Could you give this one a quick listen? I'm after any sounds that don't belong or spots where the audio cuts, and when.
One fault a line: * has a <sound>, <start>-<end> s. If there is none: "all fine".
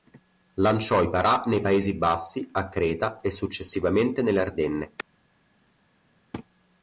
all fine